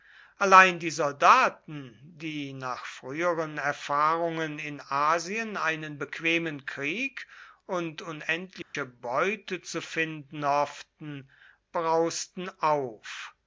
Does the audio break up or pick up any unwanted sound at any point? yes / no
yes